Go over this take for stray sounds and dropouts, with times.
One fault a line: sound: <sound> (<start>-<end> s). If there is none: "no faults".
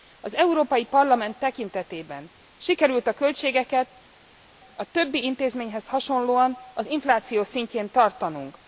no faults